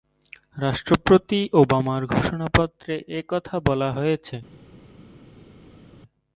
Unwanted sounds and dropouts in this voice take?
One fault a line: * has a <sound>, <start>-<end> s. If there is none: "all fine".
all fine